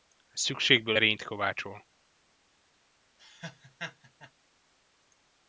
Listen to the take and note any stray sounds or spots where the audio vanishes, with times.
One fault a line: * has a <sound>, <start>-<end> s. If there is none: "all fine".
* has a laugh, 3.2-4.3 s